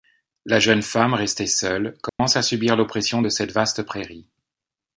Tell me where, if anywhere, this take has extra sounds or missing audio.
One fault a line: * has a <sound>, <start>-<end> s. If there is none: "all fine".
* has a dropout, 2.1-2.2 s